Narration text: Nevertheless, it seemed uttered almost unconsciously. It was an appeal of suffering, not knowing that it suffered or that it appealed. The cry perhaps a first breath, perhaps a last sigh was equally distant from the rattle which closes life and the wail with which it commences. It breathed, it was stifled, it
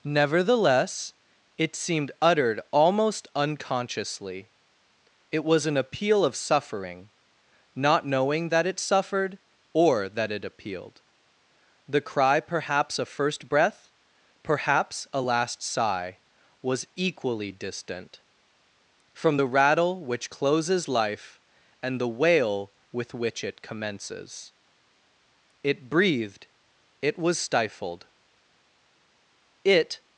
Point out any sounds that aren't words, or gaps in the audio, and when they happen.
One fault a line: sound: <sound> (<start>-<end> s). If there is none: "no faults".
no faults